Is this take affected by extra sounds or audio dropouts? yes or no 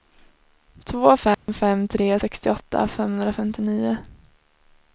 yes